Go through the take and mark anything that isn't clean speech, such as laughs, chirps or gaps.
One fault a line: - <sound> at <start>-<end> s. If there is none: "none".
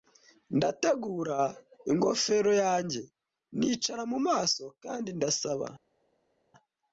none